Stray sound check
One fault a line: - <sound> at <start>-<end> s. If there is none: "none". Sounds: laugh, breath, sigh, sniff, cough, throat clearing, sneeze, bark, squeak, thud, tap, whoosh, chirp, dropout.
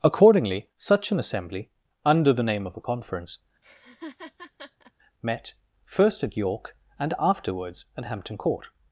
- laugh at 3.6-4.9 s